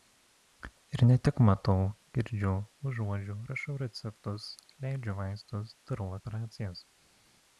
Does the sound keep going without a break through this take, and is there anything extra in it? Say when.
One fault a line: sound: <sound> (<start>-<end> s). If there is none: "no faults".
no faults